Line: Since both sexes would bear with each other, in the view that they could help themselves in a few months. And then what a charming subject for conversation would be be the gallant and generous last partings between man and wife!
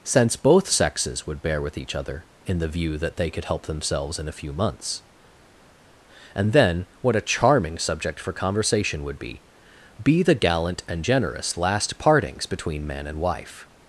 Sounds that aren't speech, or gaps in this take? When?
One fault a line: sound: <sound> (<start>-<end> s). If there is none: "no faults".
no faults